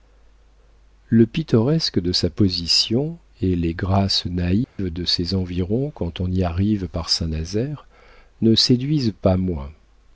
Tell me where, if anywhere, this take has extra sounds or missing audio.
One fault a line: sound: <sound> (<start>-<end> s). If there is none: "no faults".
sound: dropout (4.6-4.8 s)